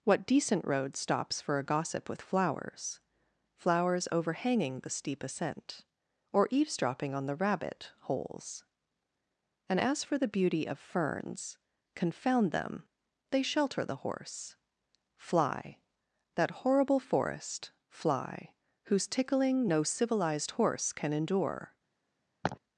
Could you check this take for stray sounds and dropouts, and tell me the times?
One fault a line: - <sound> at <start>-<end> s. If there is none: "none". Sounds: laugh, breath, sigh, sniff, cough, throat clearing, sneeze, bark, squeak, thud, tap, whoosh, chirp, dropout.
- laugh at 22.4-22.6 s